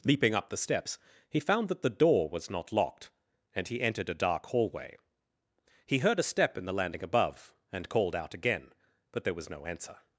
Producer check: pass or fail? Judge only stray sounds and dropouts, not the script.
pass